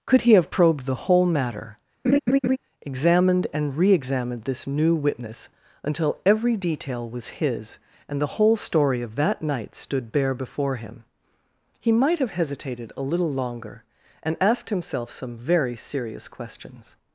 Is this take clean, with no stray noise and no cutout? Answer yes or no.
no